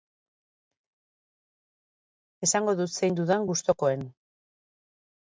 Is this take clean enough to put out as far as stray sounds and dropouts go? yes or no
yes